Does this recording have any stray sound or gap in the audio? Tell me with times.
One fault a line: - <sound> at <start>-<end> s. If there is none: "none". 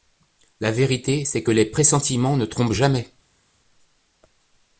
none